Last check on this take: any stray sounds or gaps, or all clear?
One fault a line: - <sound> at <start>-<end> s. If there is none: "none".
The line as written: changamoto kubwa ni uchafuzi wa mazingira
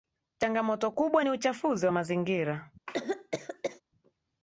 - cough at 2.9-3.8 s